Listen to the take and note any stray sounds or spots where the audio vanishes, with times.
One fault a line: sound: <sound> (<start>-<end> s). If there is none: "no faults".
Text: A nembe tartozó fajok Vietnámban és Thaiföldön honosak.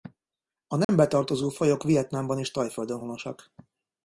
sound: dropout (0.8-0.9 s)